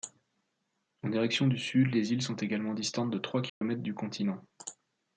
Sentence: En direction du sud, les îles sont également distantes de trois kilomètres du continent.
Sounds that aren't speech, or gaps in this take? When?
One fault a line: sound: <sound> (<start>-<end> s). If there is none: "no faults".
sound: dropout (3.5-3.6 s)